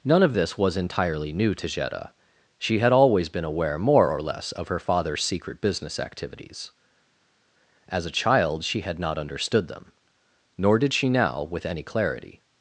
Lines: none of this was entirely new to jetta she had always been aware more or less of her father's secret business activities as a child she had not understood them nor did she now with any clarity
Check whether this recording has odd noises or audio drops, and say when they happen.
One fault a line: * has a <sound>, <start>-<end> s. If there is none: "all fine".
all fine